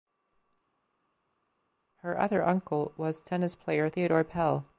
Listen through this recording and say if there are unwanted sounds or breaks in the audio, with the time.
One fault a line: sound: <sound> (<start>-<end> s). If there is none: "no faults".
no faults